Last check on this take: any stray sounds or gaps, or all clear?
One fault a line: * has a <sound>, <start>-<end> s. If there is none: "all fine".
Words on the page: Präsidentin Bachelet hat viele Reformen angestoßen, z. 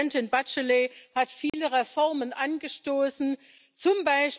* has a dropout, 1.5-1.5 s